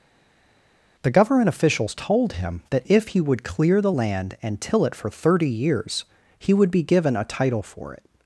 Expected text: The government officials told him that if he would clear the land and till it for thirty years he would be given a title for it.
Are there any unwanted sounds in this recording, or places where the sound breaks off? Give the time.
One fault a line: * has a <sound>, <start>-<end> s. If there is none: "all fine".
all fine